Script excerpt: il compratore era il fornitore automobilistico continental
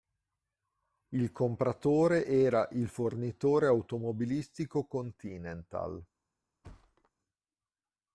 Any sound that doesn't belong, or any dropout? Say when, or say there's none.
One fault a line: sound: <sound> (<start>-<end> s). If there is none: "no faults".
sound: thud (6.6-7.1 s)